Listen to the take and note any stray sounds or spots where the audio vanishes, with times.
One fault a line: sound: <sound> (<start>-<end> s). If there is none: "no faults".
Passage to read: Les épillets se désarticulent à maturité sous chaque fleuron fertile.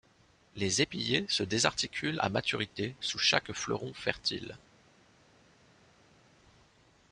no faults